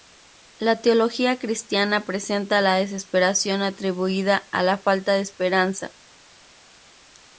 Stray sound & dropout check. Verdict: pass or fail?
pass